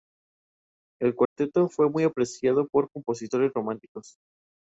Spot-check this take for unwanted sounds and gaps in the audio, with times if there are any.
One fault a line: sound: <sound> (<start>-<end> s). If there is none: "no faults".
sound: dropout (1.3-1.4 s)